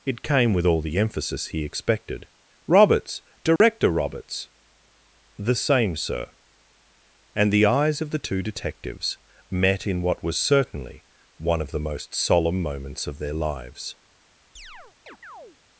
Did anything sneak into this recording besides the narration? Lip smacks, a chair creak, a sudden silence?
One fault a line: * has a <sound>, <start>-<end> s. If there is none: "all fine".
* has a dropout, 3.6-3.6 s
* has a chirp, 14.6-15.6 s